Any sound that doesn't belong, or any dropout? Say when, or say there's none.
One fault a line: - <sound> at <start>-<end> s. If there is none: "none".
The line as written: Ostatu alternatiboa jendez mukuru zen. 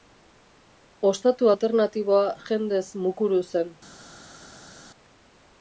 none